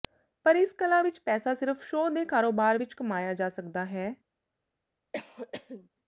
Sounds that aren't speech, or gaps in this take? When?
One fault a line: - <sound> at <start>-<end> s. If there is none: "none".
- cough at 5.1-5.9 s